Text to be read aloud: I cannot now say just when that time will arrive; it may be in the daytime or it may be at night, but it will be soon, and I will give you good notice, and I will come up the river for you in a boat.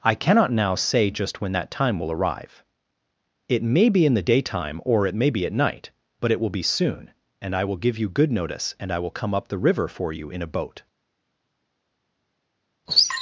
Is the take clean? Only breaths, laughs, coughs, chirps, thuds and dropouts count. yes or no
yes